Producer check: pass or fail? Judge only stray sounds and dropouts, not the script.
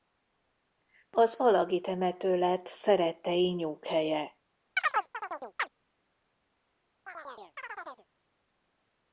fail